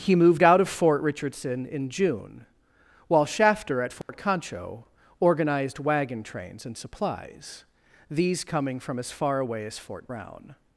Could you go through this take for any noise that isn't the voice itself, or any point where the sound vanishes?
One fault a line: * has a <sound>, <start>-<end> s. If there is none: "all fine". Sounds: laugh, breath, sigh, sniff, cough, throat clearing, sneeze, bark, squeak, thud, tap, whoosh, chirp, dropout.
* has a dropout, 4.0-4.1 s